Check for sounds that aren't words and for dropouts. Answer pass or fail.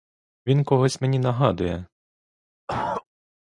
fail